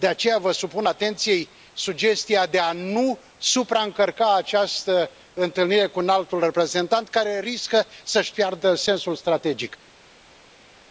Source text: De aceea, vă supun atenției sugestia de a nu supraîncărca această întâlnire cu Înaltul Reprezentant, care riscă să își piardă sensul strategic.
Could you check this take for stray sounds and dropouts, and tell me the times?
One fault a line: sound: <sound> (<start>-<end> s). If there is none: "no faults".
no faults